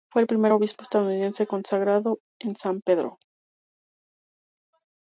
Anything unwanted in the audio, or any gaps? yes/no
no